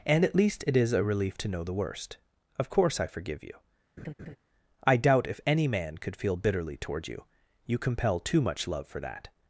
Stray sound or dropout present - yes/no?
yes